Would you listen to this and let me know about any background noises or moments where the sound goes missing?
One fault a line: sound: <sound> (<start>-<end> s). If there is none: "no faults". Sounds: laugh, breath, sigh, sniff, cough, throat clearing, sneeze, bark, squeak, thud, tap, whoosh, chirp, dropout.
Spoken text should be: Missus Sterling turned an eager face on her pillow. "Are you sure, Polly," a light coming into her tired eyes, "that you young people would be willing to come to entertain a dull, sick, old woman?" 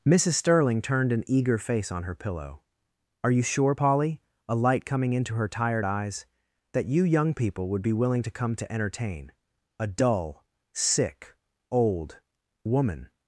no faults